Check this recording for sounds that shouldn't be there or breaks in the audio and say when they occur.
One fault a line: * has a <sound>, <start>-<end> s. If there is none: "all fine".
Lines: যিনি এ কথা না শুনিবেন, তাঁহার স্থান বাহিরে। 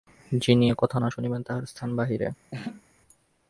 * has a laugh, 2.5-2.8 s